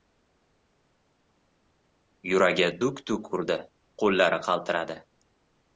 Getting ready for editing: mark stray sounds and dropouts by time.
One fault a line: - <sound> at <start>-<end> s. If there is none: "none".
none